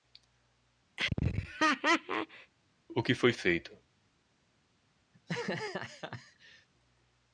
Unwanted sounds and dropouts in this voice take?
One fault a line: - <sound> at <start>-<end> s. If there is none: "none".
- laugh at 1.0-2.5 s
- laugh at 5.1-6.7 s